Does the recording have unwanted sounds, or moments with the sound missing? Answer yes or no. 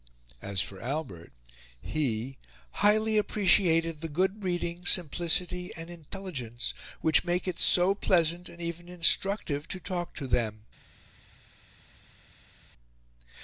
no